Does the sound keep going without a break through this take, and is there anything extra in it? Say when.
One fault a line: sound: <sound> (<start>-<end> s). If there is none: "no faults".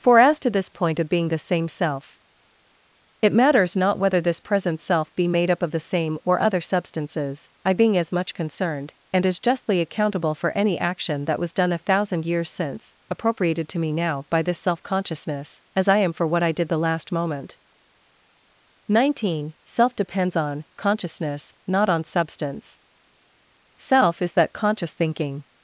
no faults